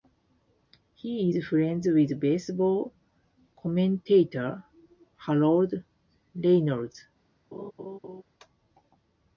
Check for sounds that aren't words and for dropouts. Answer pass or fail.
fail